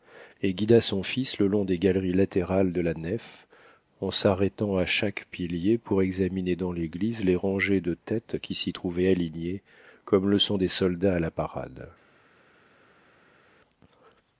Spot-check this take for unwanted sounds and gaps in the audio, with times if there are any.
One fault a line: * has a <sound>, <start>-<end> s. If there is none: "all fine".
all fine